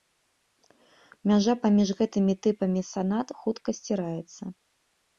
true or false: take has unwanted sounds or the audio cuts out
false